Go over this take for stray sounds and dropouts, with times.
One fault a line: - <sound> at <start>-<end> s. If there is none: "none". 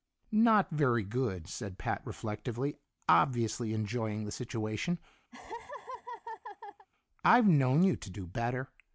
- laugh at 5.3-6.9 s